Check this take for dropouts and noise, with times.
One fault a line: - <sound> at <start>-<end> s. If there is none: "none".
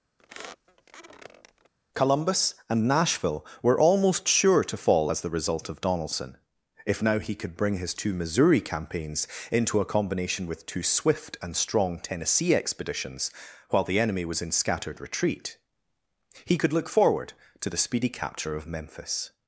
- squeak at 0.2-1.7 s